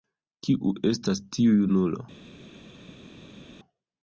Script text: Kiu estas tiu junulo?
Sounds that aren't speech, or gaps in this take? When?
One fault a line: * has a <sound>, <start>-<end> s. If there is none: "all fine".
all fine